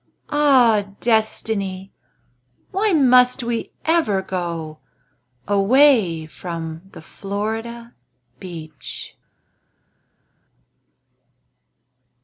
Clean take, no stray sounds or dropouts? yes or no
yes